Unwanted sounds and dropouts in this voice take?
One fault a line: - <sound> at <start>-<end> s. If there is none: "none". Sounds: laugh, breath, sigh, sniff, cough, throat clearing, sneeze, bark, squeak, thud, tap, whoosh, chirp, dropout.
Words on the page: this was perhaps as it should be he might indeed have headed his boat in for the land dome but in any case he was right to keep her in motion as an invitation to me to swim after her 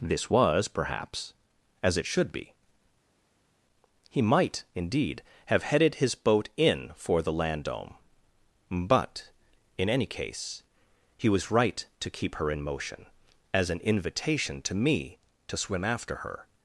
none